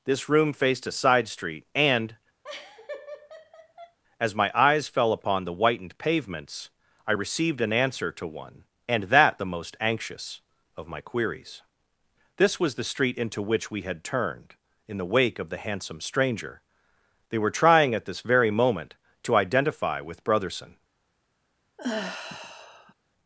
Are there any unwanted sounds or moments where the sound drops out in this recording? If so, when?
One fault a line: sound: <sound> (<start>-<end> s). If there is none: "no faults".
sound: laugh (2.4-4.0 s)
sound: sigh (21.8-22.9 s)